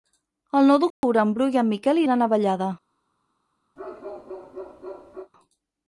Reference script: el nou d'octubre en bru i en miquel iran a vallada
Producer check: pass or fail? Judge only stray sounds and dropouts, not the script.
fail